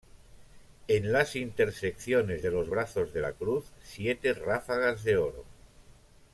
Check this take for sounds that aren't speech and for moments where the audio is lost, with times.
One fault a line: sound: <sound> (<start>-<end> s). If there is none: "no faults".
no faults